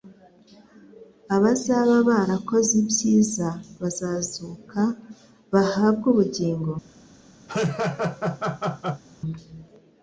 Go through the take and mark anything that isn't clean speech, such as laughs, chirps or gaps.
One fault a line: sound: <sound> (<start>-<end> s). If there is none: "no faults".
sound: laugh (7.5-9.0 s)